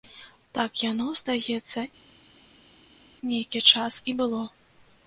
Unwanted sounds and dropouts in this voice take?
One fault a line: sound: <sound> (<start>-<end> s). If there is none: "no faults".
no faults